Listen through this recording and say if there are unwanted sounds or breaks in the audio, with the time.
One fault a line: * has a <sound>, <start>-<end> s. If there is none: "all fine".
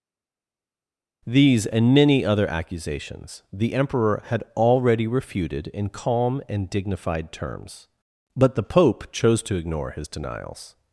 all fine